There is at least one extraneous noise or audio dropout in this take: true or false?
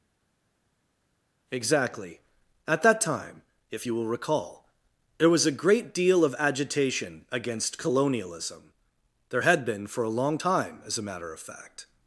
false